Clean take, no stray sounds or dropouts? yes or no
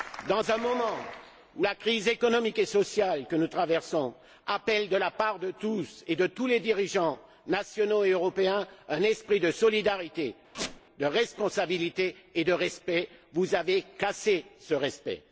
no